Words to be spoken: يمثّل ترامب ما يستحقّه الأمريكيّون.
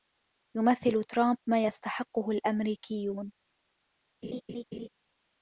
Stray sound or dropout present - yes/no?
yes